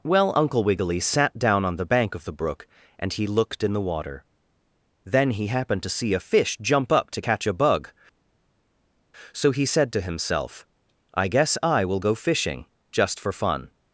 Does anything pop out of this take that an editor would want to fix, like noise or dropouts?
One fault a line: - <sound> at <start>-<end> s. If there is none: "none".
none